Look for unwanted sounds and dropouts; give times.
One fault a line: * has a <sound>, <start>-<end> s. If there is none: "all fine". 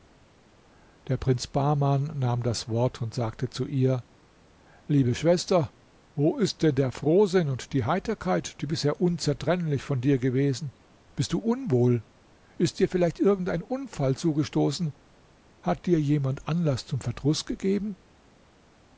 all fine